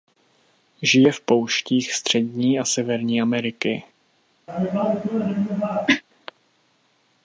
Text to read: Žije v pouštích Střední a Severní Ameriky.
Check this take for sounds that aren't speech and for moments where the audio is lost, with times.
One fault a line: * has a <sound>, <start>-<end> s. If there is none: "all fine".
* has a cough, 4.5-6.0 s